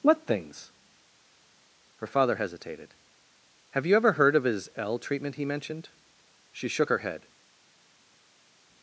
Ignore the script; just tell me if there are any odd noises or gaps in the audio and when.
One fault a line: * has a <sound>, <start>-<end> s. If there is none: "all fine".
all fine